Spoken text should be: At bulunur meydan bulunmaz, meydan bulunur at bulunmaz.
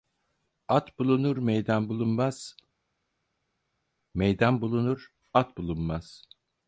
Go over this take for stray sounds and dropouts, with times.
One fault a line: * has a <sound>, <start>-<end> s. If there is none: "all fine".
all fine